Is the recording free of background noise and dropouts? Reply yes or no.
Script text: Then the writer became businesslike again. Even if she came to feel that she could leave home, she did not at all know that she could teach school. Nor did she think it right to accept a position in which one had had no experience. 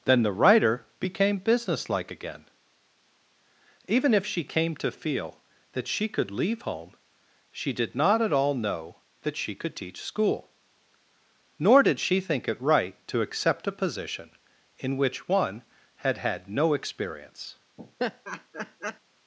no